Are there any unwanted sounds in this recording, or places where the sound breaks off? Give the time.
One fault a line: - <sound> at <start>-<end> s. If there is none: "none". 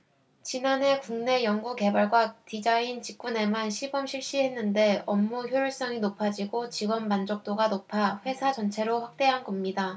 none